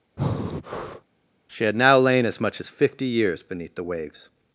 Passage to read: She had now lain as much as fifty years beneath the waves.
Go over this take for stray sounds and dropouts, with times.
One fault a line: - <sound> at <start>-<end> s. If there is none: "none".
- breath at 0.2-1.1 s